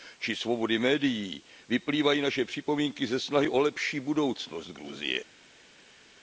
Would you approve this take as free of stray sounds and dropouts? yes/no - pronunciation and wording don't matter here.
yes